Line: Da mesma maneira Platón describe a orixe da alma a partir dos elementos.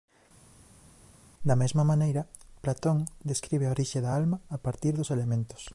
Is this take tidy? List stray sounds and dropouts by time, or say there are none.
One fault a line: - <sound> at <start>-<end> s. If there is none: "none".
none